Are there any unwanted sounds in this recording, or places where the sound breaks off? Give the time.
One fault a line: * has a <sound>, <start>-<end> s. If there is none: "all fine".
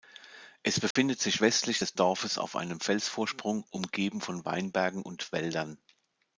* has a dropout, 0.9-1.0 s